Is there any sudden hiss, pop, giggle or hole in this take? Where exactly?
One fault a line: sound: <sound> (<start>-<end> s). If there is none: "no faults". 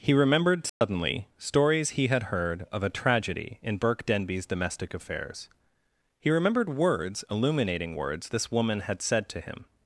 sound: dropout (0.7-0.8 s)